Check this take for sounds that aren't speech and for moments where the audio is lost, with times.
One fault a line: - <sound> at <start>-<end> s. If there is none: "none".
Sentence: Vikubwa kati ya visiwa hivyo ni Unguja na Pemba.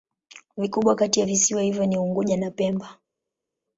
none